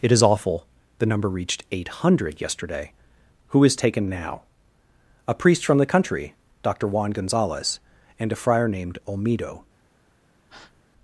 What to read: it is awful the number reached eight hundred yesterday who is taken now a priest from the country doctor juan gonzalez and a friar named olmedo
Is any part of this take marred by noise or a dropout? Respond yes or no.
yes